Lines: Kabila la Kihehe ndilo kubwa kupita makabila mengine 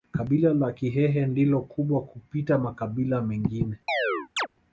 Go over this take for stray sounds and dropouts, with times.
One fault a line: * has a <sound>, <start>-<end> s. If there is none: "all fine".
* has a chirp, 3.9-4.5 s